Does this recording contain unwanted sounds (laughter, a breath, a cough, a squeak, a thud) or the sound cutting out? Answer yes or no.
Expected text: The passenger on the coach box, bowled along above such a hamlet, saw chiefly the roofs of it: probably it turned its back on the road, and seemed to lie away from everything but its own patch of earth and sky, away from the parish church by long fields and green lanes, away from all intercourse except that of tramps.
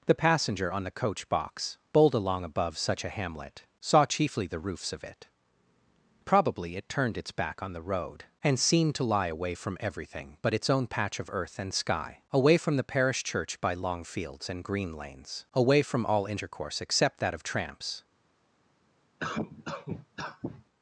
yes